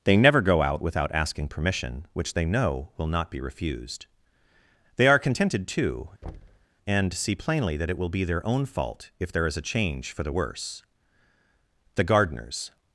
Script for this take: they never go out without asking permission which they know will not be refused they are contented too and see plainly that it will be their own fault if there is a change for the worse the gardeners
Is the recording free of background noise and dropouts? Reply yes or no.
no